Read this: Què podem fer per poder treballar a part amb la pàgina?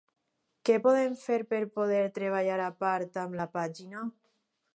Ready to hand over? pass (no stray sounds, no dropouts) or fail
pass